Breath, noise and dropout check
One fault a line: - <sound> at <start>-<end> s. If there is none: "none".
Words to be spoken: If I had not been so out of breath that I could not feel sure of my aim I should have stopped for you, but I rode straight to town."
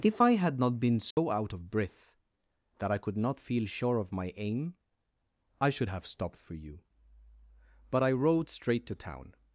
- dropout at 1.1-1.2 s